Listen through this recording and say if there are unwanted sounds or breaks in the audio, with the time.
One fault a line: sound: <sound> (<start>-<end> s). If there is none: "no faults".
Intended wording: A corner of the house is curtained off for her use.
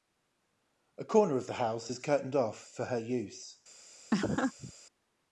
sound: laugh (4.1-4.7 s)